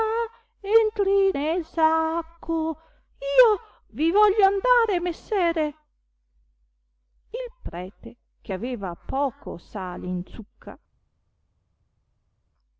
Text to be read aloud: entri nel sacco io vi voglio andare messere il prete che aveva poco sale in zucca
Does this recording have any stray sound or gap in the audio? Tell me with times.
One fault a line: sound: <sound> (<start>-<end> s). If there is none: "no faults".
no faults